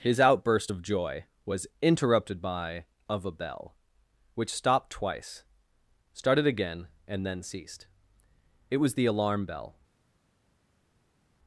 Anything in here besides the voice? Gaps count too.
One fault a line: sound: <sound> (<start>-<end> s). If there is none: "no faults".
no faults